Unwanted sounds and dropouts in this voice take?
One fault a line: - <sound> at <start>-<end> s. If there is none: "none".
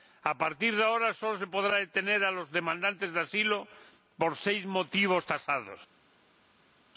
none